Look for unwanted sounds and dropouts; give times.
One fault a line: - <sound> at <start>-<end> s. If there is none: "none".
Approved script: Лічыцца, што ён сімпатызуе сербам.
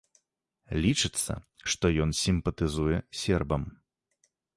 none